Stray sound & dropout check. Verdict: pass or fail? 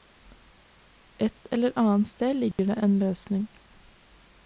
fail